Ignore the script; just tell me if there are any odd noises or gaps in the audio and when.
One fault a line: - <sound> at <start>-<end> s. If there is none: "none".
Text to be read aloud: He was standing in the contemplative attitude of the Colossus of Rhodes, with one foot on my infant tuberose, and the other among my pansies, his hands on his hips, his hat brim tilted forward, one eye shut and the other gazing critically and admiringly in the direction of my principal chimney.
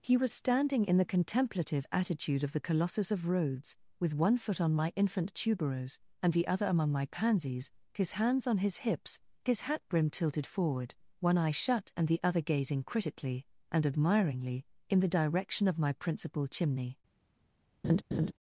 - laugh at 17.8-18.3 s